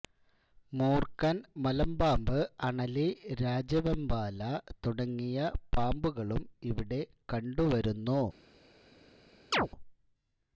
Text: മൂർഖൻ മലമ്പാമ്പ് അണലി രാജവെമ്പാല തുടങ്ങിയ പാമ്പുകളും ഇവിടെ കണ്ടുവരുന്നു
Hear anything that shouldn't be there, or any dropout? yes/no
yes